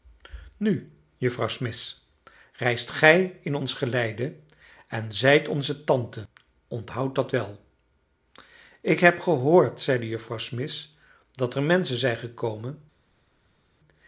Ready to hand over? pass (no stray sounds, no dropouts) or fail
pass